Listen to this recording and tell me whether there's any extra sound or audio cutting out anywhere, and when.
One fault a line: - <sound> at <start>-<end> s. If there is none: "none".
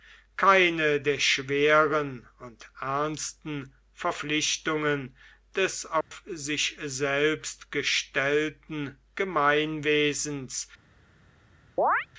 - dropout at 6.0-6.1 s
- chirp at 11.8-12.1 s